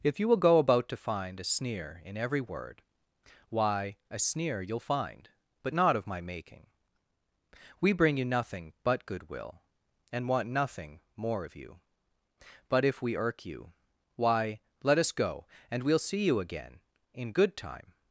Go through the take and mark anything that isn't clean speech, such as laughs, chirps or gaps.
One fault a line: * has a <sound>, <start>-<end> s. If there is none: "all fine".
all fine